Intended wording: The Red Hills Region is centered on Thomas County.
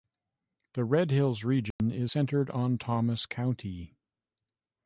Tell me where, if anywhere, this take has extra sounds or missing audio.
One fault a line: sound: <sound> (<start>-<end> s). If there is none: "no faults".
sound: dropout (1.7-1.8 s)